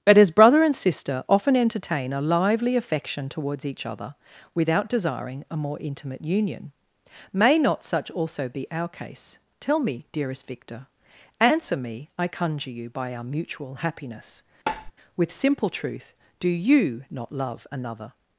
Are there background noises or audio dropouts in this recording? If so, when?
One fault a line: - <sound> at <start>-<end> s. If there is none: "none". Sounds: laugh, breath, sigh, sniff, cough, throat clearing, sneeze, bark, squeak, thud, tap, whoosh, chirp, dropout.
- tap at 14.7-14.9 s